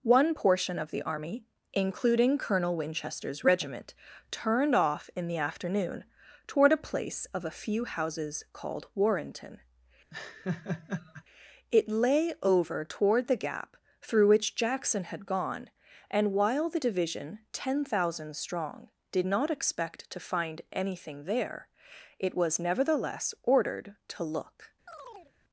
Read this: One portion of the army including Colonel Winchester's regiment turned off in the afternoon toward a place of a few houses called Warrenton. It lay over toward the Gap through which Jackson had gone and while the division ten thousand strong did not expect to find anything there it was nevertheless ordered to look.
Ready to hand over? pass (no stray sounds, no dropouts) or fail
fail